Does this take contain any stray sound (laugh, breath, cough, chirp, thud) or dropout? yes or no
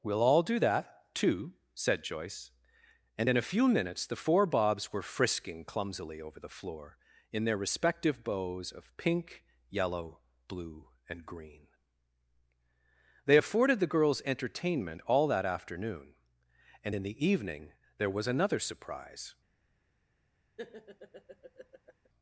yes